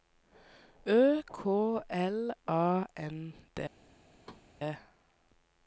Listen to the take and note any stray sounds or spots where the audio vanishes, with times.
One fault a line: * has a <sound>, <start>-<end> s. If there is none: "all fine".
* has a thud, 4.2-4.5 s